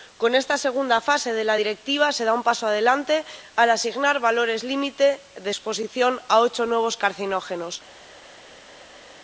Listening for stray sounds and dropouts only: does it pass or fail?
pass